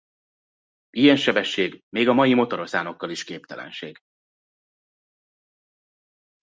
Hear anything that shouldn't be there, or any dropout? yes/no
no